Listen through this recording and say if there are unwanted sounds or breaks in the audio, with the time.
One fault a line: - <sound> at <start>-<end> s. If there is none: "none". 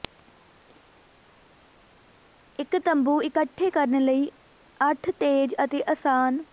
none